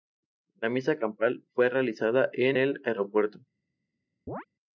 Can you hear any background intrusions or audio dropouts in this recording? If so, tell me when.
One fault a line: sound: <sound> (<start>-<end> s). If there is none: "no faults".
sound: chirp (4.3-4.5 s)